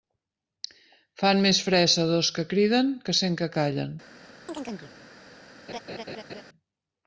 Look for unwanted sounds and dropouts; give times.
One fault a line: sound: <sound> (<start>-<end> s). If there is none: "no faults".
sound: chirp (4.5-4.9 s)
sound: laugh (5.7-6.4 s)